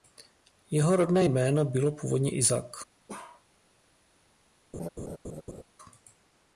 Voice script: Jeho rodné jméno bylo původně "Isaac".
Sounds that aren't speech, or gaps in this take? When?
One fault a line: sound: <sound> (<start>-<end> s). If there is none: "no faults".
sound: bark (3.1-3.4 s)
sound: laugh (4.7-5.6 s)